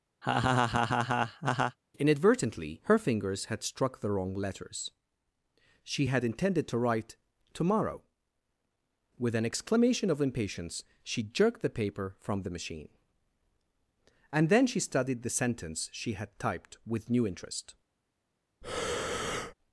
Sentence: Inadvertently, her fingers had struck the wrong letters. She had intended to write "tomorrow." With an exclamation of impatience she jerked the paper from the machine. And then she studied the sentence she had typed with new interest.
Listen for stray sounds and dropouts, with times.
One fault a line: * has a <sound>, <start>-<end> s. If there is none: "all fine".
* has a laugh, 0.2-1.8 s
* has a breath, 18.6-19.5 s